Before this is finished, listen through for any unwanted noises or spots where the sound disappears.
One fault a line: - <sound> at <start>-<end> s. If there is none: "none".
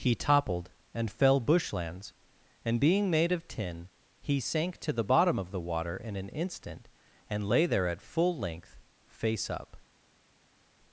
none